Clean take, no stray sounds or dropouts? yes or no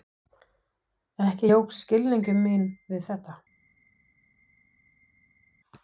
yes